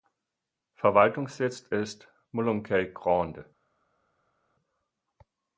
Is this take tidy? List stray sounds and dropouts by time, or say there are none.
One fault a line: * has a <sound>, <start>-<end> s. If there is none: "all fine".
all fine